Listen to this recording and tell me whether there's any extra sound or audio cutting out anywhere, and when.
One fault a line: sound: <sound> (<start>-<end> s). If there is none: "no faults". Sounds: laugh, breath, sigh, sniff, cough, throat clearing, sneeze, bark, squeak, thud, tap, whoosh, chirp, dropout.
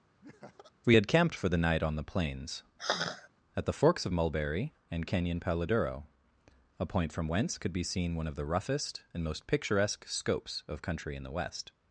sound: laugh (0.2-0.7 s)
sound: sigh (2.8-3.3 s)